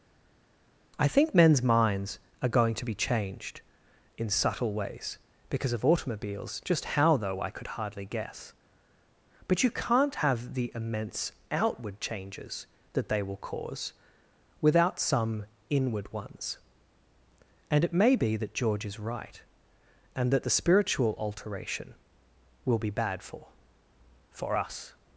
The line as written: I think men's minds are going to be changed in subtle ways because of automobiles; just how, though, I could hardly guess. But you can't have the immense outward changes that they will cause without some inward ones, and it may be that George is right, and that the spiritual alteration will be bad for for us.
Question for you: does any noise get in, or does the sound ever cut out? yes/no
no